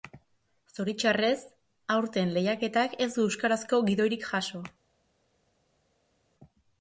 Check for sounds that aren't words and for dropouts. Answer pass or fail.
pass